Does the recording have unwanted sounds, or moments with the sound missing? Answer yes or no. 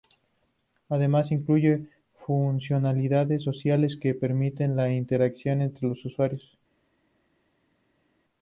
no